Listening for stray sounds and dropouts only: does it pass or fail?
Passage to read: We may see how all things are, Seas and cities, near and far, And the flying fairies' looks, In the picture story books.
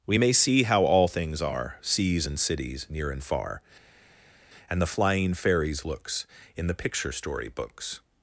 pass